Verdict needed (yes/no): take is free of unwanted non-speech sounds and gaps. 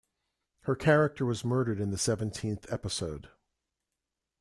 yes